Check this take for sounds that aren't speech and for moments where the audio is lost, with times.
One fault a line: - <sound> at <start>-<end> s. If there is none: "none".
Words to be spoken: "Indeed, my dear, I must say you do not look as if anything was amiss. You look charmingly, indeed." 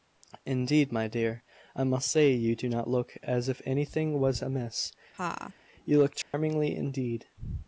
- laugh at 5.1-5.5 s
- dropout at 6.2-6.3 s